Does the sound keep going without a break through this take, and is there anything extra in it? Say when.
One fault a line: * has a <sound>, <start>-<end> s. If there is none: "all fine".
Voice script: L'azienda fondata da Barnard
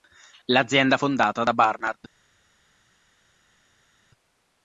all fine